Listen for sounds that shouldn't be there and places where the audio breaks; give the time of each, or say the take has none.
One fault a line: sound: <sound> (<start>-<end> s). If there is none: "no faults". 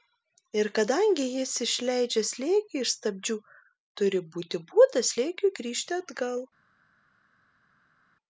no faults